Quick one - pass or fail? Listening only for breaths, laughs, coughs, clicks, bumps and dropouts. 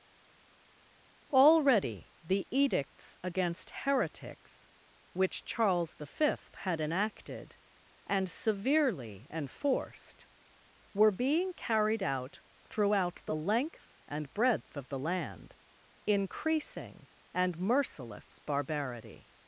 pass